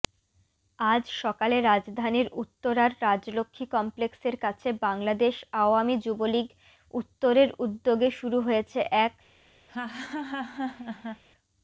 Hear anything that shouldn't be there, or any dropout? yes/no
yes